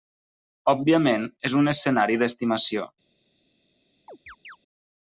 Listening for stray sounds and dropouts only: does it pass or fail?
fail